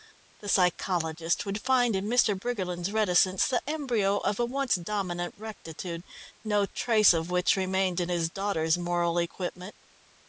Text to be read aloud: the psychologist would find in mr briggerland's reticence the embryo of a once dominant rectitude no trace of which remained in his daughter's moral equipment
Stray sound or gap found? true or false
false